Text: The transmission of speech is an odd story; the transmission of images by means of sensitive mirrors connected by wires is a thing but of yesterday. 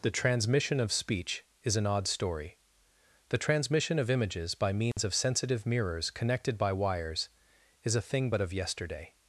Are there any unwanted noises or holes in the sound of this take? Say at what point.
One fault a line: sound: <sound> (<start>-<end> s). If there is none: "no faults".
sound: dropout (4.9-5.0 s)